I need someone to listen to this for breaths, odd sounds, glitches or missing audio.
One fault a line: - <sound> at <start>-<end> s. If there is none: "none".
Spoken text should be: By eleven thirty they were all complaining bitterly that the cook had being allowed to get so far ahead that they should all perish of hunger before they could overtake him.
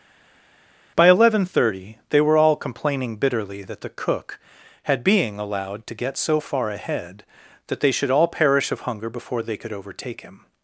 none